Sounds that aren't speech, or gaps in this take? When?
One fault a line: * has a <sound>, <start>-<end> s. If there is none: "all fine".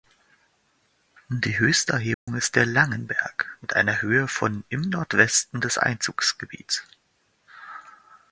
* has a dropout, 2.1-2.3 s